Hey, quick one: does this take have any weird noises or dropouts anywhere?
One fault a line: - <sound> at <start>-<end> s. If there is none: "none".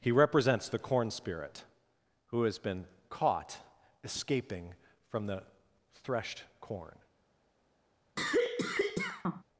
- cough at 8.2-9.4 s